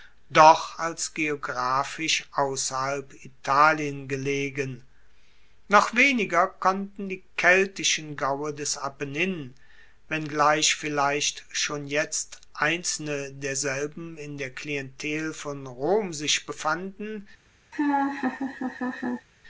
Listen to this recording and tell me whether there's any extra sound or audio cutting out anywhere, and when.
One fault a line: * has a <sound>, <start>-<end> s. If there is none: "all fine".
* has a laugh, 17.7-19.3 s